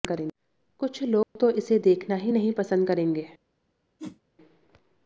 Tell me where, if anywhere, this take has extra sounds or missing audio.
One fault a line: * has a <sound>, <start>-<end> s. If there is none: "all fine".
* has a dropout, 1.2-1.4 s
* has a whoosh, 4.0-4.2 s